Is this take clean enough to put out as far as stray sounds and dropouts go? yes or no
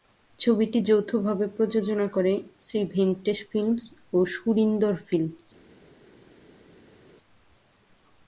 yes